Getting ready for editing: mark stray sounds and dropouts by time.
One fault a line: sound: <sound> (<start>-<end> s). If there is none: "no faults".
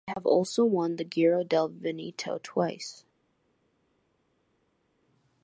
no faults